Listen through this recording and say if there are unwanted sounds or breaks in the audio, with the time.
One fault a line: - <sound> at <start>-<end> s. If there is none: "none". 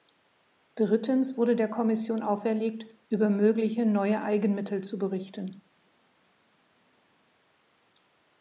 none